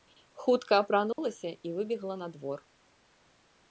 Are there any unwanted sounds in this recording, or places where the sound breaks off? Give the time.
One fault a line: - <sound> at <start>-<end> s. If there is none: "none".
- dropout at 1.1-1.2 s